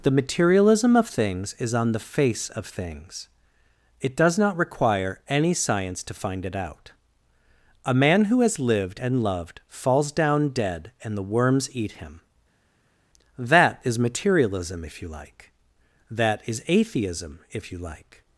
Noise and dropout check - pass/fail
pass